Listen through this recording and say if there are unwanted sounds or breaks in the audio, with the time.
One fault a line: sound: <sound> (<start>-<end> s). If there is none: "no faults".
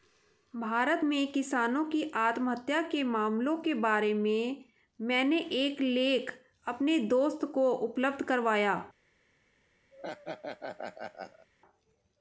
sound: laugh (9.9-11.5 s)